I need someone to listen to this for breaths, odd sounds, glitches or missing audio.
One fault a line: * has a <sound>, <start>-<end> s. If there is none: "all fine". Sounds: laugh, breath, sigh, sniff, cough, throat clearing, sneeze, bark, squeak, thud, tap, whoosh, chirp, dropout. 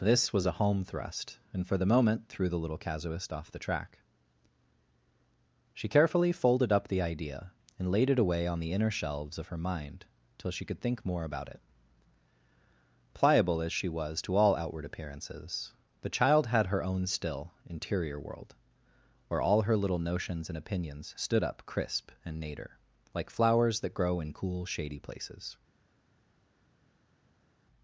all fine